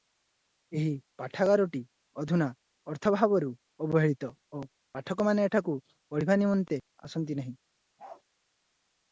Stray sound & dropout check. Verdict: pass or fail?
fail